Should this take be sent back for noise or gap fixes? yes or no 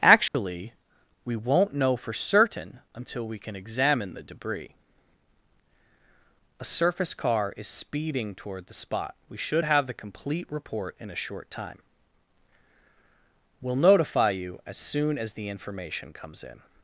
yes